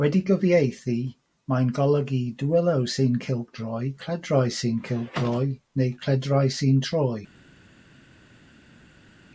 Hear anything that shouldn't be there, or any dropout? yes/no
no